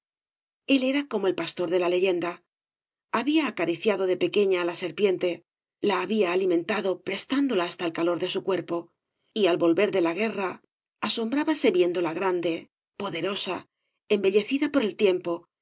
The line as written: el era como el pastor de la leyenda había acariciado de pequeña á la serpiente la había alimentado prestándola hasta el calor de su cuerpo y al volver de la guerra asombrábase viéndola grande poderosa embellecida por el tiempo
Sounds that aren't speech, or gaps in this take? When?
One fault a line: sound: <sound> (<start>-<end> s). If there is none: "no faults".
no faults